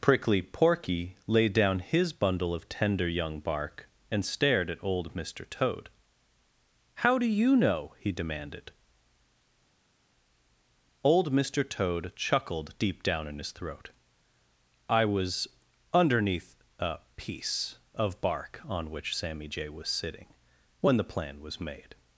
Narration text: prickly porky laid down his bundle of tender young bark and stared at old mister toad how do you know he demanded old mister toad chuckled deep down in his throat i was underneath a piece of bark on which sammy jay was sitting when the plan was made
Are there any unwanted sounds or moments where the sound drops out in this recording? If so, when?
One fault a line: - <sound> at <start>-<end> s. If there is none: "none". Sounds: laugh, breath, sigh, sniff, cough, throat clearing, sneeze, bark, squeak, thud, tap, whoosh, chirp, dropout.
none